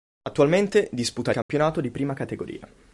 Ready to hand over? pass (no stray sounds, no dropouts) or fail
fail